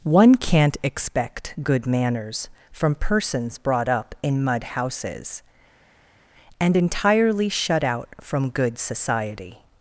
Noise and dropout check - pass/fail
pass